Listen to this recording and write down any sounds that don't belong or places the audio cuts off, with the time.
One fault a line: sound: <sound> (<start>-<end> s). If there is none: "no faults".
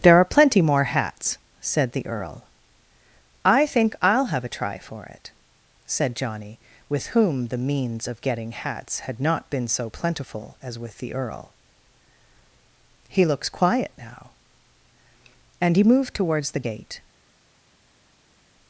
no faults